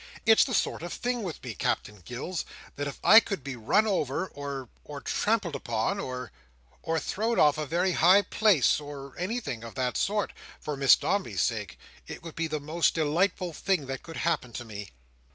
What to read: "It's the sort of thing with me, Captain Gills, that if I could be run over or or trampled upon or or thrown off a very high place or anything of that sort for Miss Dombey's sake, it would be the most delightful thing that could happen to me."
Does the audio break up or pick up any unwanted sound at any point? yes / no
no